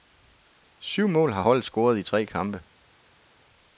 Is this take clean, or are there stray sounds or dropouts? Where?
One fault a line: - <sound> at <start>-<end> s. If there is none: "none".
none